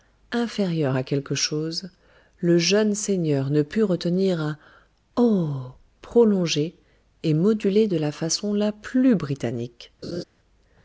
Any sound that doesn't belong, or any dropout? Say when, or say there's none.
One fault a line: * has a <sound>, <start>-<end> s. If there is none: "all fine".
* has a laugh, 10.0-10.2 s